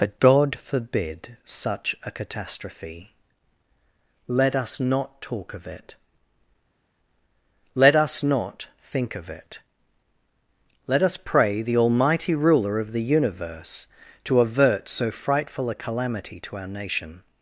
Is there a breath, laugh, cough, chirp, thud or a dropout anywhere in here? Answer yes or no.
no